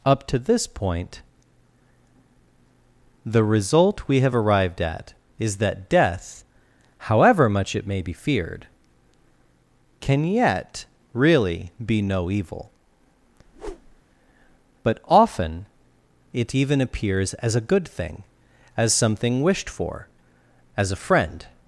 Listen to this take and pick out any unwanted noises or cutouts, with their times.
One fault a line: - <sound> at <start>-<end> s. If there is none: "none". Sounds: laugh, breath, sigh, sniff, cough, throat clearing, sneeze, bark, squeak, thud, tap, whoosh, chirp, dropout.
- whoosh at 13.5-14.0 s